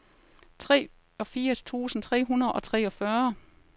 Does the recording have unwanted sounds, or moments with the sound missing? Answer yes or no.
no